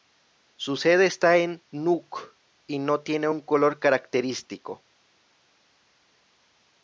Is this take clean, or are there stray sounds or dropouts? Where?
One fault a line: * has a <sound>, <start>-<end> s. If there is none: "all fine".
all fine